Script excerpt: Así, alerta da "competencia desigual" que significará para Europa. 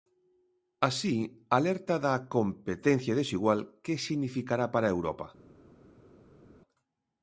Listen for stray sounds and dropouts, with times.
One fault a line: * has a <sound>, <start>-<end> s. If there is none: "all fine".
all fine